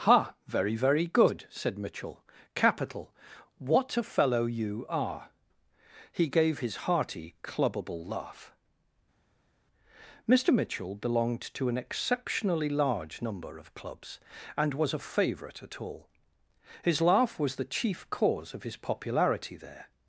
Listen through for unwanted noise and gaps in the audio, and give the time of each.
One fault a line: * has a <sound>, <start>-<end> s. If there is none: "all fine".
all fine